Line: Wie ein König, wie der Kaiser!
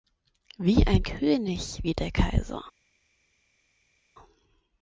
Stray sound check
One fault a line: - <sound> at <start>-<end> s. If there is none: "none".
none